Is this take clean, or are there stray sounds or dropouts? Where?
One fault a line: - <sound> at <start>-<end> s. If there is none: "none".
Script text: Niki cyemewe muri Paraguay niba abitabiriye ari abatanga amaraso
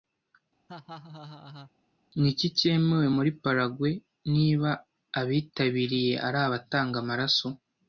- laugh at 0.7-1.7 s